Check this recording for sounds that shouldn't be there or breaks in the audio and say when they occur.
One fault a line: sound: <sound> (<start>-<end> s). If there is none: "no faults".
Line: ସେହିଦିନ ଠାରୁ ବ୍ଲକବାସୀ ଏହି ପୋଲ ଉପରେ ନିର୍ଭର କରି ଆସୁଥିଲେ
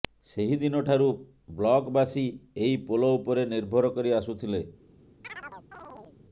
sound: chirp (5.2-6.2 s)